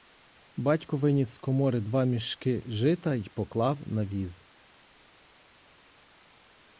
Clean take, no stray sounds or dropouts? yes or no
yes